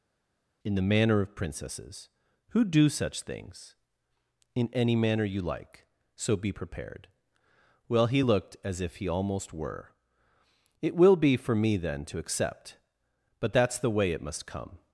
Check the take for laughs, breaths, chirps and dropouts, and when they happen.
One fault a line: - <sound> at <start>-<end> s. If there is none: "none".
none